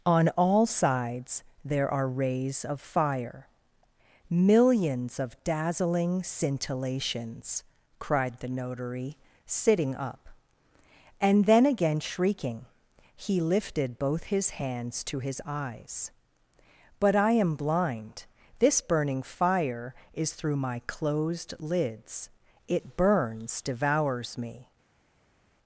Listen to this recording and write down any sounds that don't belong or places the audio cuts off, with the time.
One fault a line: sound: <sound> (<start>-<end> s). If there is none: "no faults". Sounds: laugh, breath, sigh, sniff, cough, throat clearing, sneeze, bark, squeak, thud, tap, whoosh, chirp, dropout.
no faults